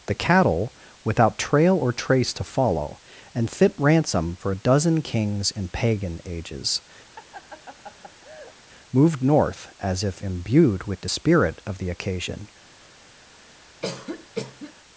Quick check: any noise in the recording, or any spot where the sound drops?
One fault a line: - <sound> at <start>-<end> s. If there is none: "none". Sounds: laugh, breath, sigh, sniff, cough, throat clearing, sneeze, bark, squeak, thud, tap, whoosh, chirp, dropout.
- laugh at 7.2-8.6 s
- cough at 13.8-14.7 s